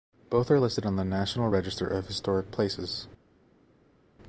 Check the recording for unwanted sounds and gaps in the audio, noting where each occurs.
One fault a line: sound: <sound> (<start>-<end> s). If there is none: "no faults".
no faults